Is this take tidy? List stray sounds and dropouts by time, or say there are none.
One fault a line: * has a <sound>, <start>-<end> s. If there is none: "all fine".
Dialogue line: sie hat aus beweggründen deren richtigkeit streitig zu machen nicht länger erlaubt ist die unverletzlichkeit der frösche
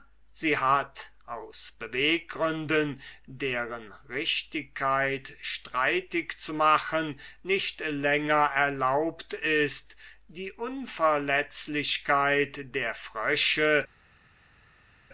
all fine